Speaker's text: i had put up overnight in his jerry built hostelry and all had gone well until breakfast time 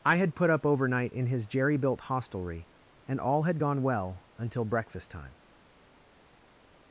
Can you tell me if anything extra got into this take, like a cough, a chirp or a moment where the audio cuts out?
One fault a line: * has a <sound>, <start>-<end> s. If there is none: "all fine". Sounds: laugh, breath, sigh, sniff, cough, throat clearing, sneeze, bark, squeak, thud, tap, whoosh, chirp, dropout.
all fine